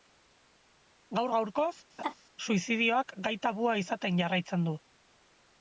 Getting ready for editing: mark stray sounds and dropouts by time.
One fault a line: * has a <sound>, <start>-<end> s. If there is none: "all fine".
* has a laugh, 2.0-2.1 s